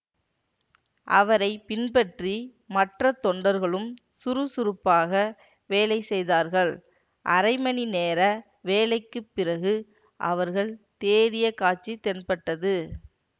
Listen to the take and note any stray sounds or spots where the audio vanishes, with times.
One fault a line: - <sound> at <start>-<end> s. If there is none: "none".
none